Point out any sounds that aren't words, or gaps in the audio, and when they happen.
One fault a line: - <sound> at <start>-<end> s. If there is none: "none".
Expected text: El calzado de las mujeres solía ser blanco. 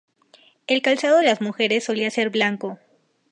none